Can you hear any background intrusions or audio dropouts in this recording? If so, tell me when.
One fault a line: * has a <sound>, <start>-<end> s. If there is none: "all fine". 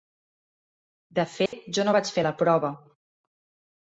* has a dropout, 1.5-1.5 s